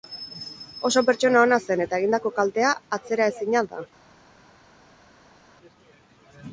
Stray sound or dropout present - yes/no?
no